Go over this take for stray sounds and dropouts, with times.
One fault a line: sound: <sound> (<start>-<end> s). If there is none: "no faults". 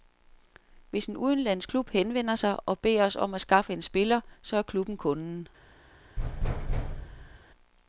sound: thud (6.2-7.4 s)